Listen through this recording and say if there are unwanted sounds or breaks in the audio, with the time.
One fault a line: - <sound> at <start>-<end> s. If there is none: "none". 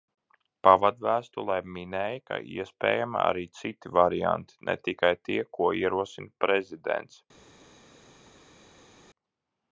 none